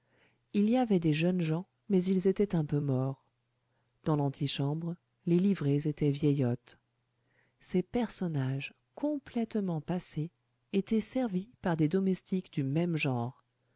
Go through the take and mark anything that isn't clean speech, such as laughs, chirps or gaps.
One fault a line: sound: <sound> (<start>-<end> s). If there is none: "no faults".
no faults